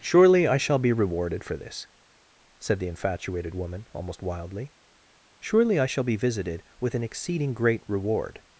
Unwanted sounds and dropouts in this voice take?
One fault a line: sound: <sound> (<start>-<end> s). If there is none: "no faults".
no faults